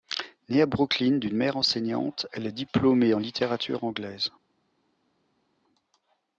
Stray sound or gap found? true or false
false